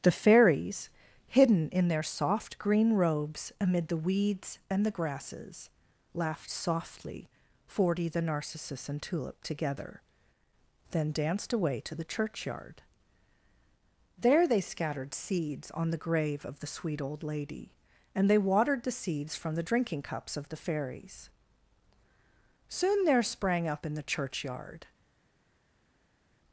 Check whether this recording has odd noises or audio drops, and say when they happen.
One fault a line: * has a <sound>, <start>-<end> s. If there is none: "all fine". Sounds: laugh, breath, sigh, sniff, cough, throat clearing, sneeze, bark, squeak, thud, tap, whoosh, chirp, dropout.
all fine